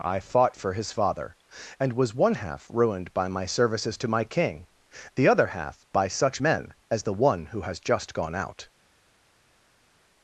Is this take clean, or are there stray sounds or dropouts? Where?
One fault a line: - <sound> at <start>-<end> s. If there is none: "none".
none